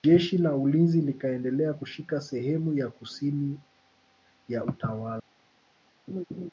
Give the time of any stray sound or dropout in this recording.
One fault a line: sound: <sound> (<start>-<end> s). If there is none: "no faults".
sound: laugh (6.1-6.5 s)